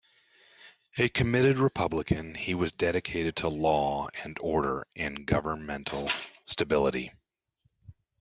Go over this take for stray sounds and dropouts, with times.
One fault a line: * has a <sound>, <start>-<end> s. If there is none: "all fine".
all fine